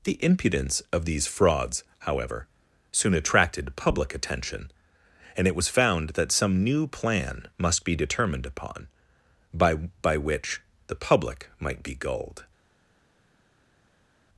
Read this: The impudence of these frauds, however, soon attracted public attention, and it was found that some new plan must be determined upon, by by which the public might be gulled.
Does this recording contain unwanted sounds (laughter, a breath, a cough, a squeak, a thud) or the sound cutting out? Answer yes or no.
no